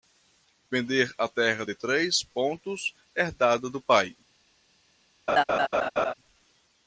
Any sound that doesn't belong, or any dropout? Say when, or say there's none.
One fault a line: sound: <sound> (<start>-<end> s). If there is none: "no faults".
sound: laugh (5.3-6.1 s)